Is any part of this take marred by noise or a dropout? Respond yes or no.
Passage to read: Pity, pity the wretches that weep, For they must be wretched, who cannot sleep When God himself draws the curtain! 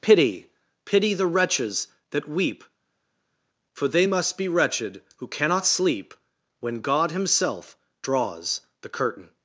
no